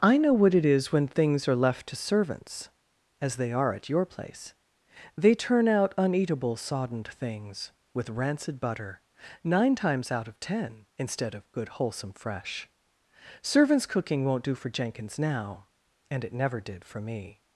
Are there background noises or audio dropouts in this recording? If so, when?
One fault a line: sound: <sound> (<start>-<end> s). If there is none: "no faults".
no faults